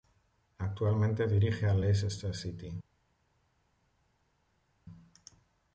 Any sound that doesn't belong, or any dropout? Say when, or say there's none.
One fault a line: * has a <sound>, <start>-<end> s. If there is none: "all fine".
all fine